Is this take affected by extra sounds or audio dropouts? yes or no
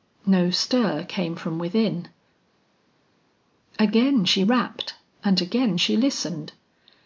no